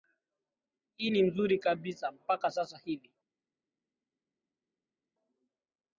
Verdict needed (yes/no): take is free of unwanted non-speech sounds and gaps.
yes